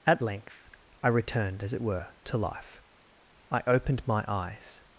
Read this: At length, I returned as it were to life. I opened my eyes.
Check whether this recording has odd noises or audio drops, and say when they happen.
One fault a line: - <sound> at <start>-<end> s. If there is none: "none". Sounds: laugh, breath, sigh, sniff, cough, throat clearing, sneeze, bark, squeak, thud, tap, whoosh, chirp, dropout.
none